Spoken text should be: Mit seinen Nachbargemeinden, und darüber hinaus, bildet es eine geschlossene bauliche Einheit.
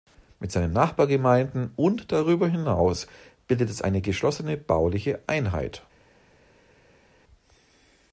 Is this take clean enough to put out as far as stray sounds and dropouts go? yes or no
yes